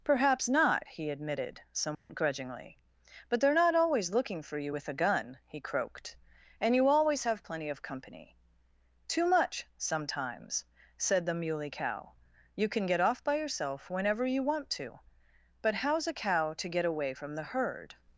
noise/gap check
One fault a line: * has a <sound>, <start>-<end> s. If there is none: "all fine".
* has a dropout, 1.9-2.1 s